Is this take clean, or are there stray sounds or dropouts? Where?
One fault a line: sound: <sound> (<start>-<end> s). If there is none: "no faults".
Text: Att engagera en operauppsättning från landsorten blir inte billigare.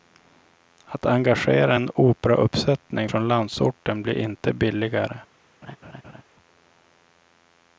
sound: laugh (5.6-6.2 s)